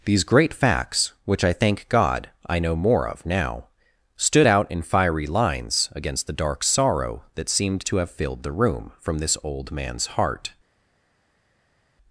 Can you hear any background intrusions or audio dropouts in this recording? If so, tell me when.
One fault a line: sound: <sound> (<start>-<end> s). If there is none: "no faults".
no faults